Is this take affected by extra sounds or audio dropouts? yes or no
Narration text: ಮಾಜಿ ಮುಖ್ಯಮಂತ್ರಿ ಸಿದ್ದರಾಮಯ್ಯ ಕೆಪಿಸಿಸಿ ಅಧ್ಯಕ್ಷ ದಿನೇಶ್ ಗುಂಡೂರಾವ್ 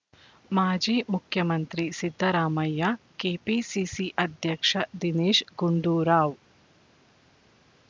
no